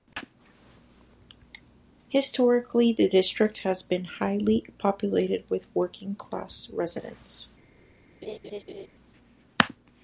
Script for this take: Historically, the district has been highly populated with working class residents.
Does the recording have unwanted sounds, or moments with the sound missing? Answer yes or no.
yes